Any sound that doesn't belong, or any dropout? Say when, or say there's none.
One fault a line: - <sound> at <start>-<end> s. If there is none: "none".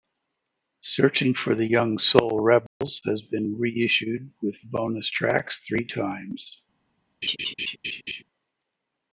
- dropout at 2.7-2.8 s
- laugh at 7.2-8.2 s